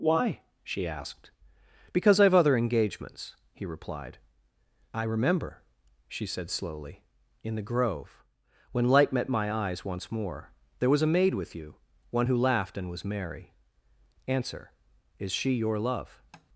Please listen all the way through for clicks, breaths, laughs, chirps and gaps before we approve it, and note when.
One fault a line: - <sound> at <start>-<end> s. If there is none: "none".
- tap at 16.3-16.5 s